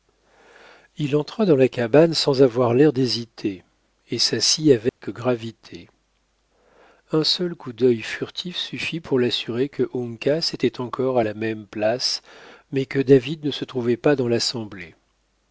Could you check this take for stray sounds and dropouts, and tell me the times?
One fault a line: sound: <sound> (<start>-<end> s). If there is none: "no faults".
sound: dropout (4.9-5.0 s)